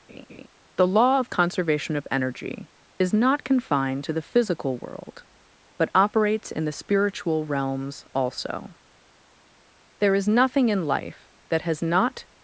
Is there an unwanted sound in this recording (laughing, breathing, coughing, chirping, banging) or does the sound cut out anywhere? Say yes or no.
yes